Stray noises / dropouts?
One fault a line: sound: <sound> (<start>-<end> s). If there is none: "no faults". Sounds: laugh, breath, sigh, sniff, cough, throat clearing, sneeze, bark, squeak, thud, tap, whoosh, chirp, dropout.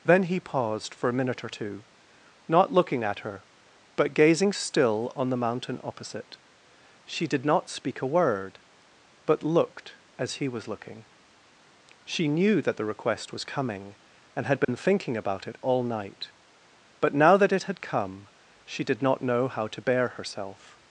sound: dropout (14.6-14.7 s)